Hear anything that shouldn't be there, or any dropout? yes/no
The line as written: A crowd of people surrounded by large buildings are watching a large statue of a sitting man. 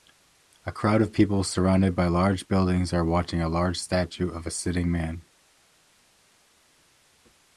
no